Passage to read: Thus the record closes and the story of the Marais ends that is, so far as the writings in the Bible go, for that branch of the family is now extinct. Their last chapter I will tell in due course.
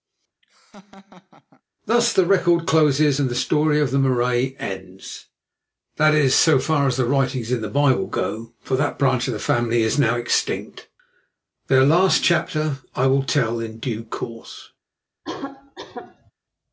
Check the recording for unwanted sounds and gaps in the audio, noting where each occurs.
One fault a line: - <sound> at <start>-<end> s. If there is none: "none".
- laugh at 0.4-1.6 s
- cough at 15.2-16.3 s